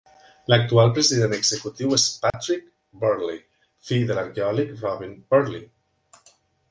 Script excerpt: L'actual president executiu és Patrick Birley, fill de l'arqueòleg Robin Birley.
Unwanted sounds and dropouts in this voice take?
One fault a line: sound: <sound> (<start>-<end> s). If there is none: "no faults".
sound: dropout (2.3-2.3 s)